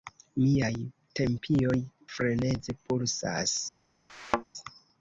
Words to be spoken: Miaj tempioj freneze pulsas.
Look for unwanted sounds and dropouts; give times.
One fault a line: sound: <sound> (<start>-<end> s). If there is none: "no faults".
sound: thud (4.1-4.4 s)